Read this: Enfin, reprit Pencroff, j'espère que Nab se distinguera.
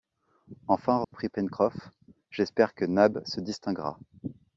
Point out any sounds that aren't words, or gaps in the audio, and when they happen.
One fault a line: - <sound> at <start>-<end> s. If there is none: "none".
- dropout at 1.0-1.1 s